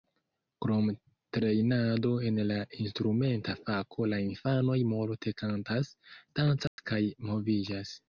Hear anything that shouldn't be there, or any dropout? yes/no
yes